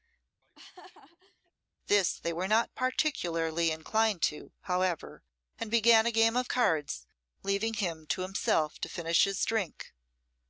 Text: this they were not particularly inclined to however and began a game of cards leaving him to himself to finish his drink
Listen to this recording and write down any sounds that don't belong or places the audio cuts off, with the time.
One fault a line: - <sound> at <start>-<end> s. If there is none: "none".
- laugh at 0.4-1.5 s